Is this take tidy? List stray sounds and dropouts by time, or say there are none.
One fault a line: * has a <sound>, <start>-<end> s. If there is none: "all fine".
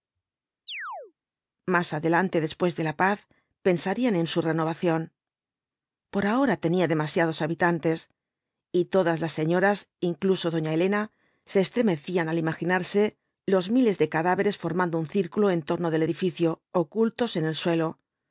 * has a chirp, 0.7-1.1 s